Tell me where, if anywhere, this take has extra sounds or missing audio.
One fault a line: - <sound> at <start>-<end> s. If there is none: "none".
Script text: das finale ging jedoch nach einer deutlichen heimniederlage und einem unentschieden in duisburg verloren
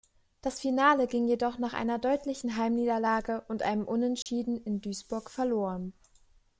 - dropout at 4.2-4.3 s